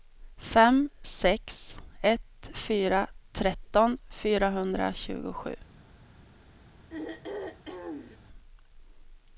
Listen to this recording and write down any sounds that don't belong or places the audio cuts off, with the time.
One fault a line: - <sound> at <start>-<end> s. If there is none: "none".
- throat clearing at 6.9-8.2 s